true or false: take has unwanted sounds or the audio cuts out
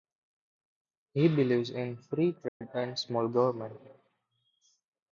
true